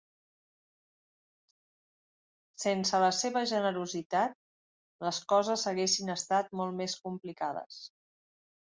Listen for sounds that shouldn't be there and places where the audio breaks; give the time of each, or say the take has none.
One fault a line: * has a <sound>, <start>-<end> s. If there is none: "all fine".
all fine